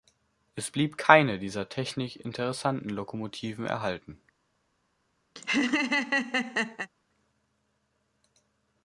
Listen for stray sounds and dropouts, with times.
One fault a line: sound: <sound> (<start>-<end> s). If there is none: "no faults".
sound: laugh (5.4-6.9 s)